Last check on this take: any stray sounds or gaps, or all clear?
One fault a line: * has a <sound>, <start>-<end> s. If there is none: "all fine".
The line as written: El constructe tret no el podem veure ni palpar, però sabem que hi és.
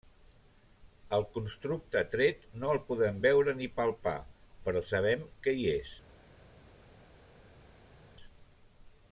all fine